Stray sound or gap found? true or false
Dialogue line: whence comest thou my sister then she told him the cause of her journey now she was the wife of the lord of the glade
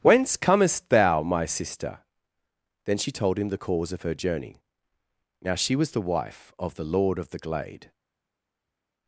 false